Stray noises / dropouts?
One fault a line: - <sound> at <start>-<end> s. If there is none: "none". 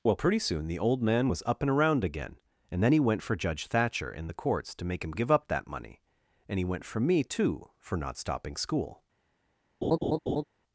- laugh at 9.8-10.4 s